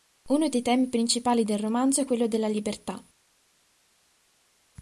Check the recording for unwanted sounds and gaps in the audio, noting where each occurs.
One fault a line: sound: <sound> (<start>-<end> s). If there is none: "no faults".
no faults